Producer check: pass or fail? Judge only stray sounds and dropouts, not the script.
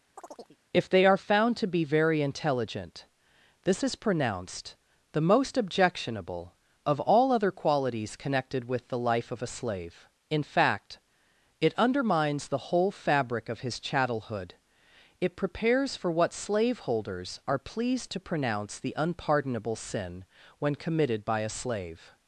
fail